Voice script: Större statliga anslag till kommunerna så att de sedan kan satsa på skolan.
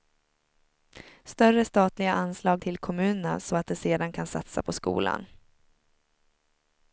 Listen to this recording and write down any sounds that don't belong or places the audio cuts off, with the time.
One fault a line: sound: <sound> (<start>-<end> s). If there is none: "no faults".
no faults